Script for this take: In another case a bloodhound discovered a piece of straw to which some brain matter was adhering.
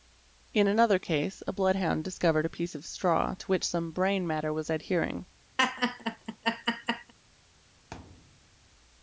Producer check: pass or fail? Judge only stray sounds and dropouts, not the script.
fail